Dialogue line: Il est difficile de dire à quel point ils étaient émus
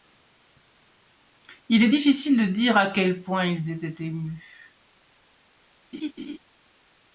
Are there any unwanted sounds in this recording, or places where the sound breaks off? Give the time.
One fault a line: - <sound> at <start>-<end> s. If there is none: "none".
- laugh at 5.9-6.4 s